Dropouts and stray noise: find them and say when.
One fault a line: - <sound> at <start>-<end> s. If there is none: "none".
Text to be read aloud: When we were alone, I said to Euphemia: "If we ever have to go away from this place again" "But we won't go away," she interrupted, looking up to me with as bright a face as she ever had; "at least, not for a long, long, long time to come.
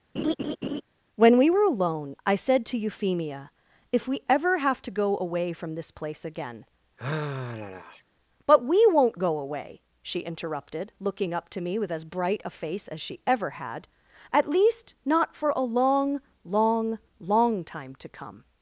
- laugh at 0.2-0.8 s
- sigh at 7.0-8.0 s